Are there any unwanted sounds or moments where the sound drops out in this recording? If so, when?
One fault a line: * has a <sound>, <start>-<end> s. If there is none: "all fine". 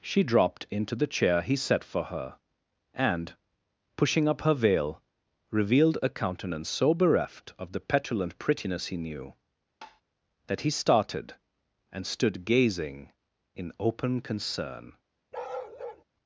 * has a tap, 9.8-10.0 s
* has a bark, 15.3-16.0 s